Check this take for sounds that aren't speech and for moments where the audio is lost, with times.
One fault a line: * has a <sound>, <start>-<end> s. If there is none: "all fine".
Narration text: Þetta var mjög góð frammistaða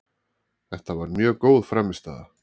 all fine